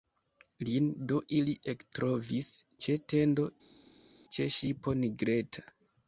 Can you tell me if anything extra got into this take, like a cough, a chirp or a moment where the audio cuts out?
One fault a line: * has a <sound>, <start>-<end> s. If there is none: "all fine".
all fine